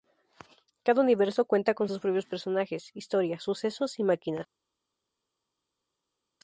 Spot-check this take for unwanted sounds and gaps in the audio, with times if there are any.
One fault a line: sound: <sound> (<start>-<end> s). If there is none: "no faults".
no faults